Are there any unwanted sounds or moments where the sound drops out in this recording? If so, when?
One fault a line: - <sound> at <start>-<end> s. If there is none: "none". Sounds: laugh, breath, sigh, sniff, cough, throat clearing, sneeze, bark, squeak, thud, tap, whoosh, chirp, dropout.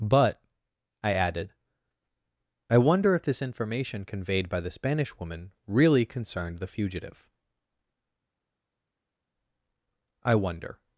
none